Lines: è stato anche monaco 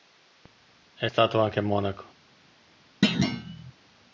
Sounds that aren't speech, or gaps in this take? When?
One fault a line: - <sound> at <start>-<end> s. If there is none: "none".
- thud at 3.0-3.7 s